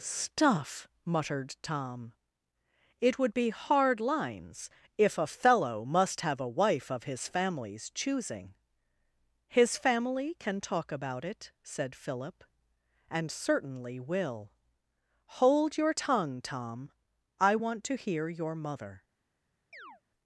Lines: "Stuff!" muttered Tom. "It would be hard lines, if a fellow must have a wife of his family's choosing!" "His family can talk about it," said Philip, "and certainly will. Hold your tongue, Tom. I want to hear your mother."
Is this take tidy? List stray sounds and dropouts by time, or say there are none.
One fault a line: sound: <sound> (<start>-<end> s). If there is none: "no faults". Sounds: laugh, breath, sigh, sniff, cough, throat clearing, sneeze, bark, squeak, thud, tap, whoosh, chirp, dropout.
sound: chirp (19.7-20.0 s)